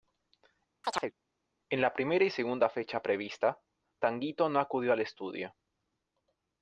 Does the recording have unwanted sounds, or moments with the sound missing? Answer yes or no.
yes